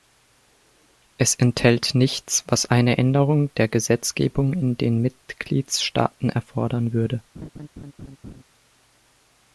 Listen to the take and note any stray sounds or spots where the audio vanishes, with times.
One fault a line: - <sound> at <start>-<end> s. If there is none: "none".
- laugh at 7.3-8.4 s